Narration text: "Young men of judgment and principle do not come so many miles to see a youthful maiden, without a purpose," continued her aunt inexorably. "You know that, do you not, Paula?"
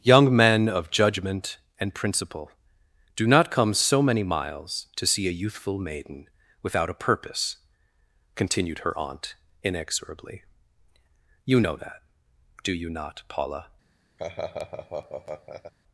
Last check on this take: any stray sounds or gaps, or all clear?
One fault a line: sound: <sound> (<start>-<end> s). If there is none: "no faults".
sound: laugh (14.2-15.7 s)